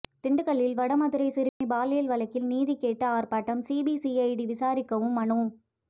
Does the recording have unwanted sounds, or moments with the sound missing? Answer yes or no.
yes